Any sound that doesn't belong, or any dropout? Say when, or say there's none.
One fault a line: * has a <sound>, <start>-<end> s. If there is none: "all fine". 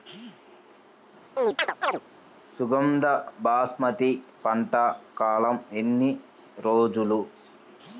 * has a chirp, 1.4-2.0 s